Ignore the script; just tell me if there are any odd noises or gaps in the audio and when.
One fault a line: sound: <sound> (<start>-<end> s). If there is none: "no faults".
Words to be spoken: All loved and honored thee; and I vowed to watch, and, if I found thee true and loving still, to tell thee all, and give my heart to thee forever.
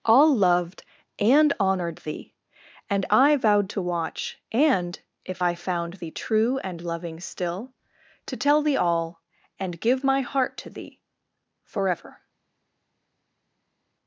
no faults